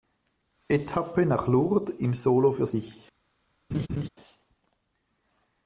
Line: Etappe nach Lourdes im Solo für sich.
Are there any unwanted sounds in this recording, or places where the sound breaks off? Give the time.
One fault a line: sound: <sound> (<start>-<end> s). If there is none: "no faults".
sound: laugh (3.7-4.1 s)